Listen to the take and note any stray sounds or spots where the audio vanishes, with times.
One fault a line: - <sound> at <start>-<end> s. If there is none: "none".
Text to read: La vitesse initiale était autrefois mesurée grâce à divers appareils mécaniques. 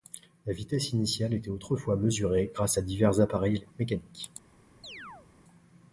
- chirp at 4.8-5.3 s